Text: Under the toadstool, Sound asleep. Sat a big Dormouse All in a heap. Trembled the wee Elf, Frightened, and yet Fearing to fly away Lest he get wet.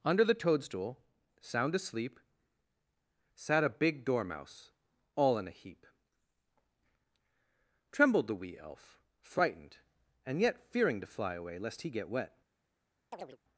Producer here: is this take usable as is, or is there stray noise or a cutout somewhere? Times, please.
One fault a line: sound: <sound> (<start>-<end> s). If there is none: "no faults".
sound: chirp (13.1-13.4 s)